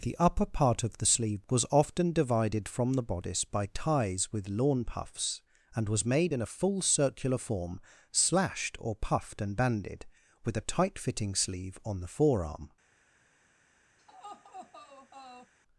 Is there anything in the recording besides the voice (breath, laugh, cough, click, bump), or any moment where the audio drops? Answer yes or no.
yes